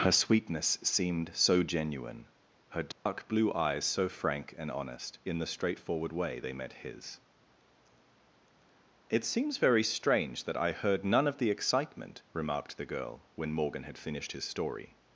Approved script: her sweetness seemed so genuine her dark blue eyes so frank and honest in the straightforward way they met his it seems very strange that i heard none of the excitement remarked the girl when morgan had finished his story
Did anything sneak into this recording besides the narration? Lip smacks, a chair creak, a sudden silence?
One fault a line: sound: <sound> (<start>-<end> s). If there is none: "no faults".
sound: dropout (2.9-3.1 s)